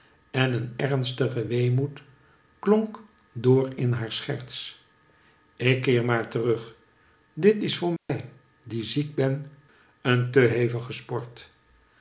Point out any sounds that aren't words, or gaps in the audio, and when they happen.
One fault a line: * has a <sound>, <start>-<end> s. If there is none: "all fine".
* has a dropout, 8.0-8.1 s